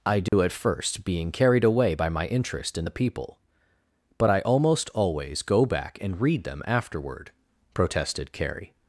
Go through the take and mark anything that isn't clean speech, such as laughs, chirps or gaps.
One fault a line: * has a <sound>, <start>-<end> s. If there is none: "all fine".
* has a dropout, 0.3-0.3 s